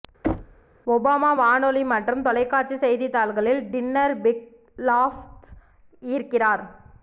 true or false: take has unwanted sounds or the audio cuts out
true